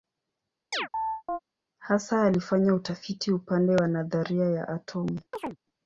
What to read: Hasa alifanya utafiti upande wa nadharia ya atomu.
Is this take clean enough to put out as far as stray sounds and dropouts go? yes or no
no